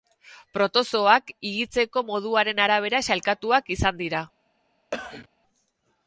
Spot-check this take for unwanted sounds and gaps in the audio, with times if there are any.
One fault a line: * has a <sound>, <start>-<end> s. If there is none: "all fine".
* has a cough, 4.9-5.3 s